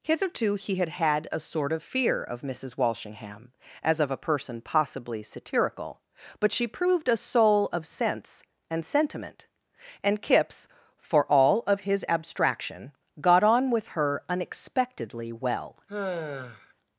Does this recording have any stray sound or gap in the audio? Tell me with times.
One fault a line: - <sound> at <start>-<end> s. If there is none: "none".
- sigh at 15.9-16.7 s